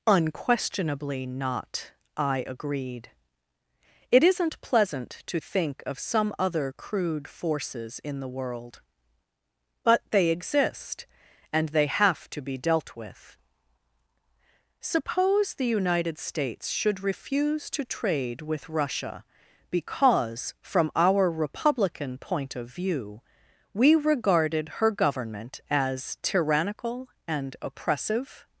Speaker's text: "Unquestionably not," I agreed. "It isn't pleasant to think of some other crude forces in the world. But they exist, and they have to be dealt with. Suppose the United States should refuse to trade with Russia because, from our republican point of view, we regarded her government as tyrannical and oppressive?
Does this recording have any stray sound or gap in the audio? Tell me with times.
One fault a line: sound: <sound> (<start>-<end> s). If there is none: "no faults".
no faults